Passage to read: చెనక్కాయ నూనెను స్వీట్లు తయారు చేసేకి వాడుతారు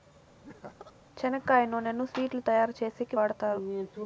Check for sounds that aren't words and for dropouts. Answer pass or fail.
fail